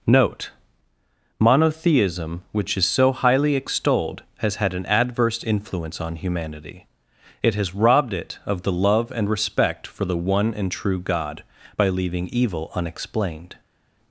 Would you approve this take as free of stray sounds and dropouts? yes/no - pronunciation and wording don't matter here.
yes